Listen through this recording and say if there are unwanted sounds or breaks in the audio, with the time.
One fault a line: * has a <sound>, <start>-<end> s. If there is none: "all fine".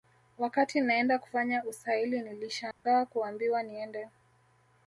* has a dropout, 2.7-2.9 s